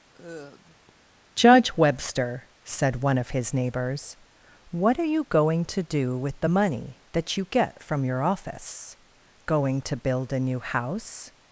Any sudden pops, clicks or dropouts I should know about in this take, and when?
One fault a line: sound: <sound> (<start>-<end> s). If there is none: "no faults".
sound: sigh (0.1-0.9 s)